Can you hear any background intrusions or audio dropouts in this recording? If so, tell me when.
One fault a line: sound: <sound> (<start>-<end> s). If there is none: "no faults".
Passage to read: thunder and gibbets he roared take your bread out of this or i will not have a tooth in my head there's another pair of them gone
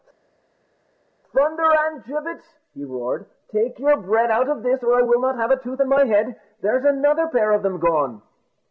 no faults